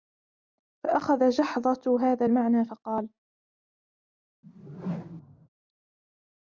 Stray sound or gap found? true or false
true